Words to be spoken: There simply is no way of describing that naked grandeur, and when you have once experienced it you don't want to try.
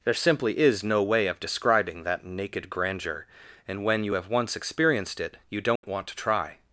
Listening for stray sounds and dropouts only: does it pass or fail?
fail